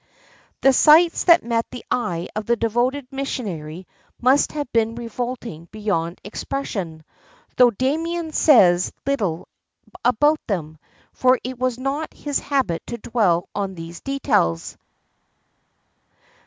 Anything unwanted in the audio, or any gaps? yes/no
no